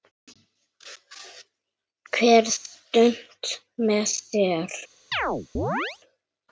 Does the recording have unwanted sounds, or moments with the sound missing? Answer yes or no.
yes